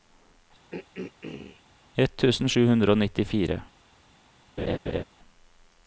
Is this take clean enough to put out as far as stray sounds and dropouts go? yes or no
no